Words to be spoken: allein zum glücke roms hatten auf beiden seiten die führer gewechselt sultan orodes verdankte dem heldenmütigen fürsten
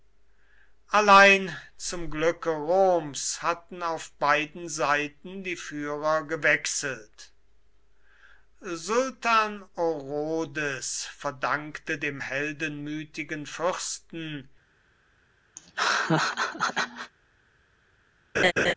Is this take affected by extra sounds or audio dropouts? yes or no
yes